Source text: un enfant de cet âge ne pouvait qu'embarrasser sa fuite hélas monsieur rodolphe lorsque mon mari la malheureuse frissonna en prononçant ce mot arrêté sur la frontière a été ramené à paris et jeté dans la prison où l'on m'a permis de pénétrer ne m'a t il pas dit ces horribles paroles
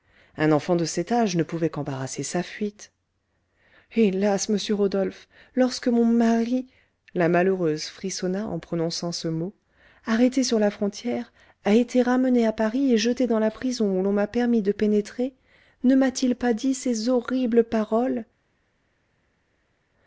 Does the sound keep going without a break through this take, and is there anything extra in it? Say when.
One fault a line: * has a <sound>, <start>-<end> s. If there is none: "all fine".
all fine